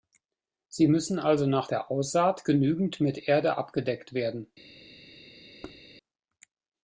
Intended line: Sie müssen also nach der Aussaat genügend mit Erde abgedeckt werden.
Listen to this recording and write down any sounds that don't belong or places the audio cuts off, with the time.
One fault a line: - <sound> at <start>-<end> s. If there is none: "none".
- thud at 5.6-5.8 s